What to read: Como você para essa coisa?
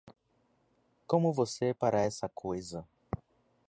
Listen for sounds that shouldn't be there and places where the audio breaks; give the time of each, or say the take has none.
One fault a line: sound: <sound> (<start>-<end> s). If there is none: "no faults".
no faults